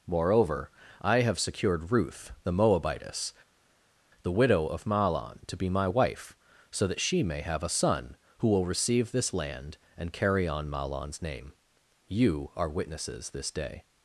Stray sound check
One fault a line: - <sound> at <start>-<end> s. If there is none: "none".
none